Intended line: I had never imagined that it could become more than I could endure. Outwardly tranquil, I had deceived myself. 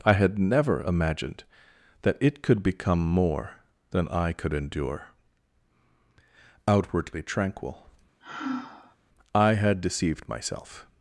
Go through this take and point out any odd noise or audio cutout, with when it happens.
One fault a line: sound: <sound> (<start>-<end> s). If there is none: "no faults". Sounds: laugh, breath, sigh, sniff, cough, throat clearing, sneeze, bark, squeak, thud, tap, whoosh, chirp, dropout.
sound: sigh (8.2-9.0 s)